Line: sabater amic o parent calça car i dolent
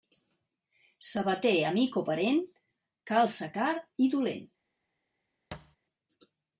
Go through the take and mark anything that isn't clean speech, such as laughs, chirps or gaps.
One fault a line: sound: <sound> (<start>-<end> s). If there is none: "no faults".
sound: thud (5.5-5.8 s)